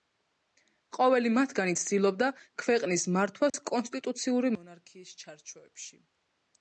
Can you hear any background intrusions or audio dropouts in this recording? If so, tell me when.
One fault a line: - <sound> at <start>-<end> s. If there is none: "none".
- dropout at 3.5-3.5 s